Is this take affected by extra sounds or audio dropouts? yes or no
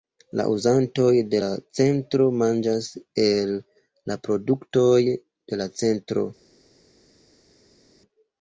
no